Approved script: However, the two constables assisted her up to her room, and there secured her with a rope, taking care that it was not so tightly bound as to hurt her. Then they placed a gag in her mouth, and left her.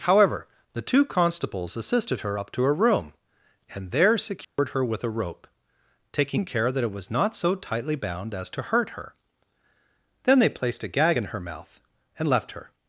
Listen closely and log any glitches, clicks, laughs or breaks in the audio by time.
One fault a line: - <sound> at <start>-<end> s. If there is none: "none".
- dropout at 4.4-4.6 s